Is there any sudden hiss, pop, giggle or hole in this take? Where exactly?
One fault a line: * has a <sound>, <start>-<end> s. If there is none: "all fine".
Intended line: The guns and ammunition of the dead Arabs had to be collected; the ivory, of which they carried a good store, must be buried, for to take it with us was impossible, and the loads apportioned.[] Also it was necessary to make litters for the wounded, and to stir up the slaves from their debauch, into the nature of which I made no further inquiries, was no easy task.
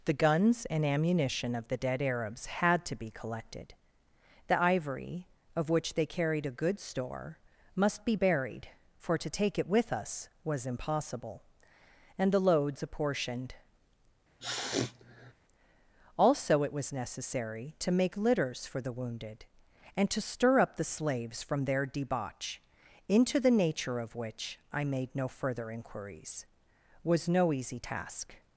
* has a sniff, 14.4-15.3 s